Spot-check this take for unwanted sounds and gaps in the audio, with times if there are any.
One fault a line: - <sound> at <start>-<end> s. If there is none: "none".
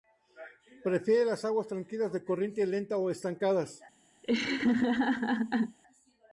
- laugh at 4.2-5.8 s